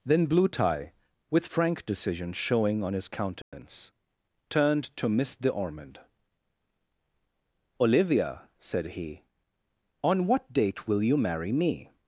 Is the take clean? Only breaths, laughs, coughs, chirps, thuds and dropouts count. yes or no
no